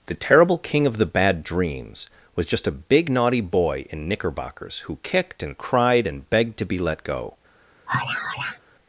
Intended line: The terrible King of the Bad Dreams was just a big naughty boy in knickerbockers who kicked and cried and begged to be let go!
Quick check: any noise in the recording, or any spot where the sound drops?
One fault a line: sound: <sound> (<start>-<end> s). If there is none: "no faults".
sound: sigh (7.9-8.6 s)